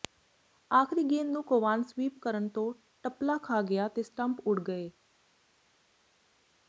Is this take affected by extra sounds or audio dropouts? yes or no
no